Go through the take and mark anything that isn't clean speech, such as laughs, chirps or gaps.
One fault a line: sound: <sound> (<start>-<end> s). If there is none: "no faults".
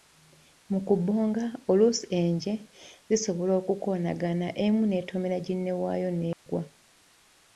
sound: dropout (6.3-6.5 s)